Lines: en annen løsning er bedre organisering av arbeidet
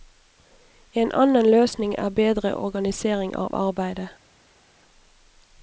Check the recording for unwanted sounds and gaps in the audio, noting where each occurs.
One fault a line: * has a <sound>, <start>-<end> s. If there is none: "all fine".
all fine